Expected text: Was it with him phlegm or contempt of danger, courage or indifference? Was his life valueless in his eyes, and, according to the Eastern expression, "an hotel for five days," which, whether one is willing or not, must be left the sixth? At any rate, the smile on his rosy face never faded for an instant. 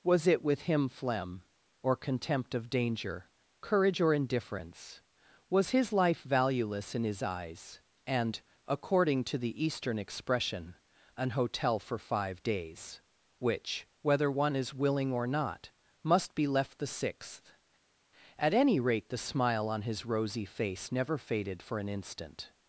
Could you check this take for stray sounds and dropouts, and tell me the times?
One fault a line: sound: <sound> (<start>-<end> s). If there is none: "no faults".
no faults